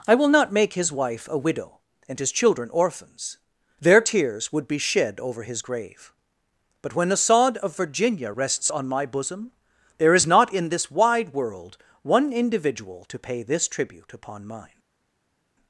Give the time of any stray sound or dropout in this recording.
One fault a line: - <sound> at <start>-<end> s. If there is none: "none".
none